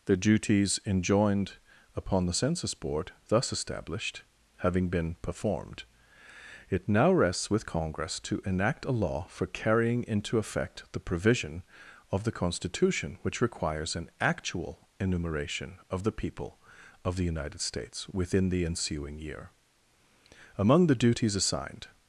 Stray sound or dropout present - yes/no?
no